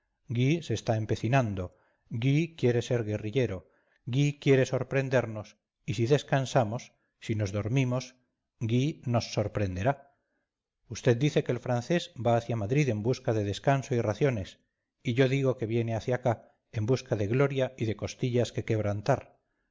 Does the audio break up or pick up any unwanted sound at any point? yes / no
no